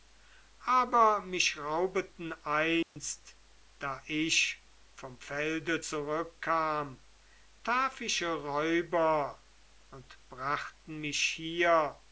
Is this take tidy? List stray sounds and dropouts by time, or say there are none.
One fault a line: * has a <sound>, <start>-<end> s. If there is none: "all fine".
* has a dropout, 2.8-3.0 s